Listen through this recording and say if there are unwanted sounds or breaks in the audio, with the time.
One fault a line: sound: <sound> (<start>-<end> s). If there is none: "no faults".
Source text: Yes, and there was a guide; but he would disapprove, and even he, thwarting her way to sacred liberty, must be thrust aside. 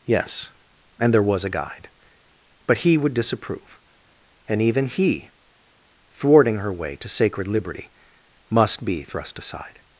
no faults